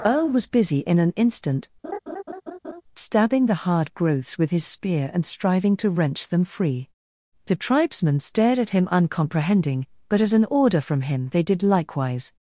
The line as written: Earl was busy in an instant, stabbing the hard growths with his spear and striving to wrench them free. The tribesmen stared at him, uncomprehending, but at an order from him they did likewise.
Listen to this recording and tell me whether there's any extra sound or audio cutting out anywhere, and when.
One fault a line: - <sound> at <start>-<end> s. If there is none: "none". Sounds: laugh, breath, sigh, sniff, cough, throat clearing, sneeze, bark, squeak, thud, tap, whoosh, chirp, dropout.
- laugh at 1.8-2.8 s